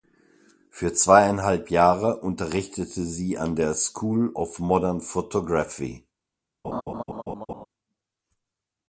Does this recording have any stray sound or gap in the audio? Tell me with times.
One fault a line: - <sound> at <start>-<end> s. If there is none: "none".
- laugh at 6.6-7.7 s